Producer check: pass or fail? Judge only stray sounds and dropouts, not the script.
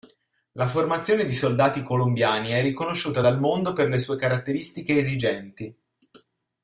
pass